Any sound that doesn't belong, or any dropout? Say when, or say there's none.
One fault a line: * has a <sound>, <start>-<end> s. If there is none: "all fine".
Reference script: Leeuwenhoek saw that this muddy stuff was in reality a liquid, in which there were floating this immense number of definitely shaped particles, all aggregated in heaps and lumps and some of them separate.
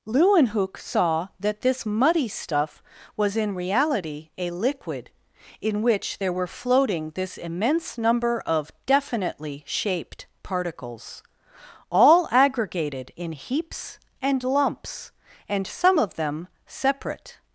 all fine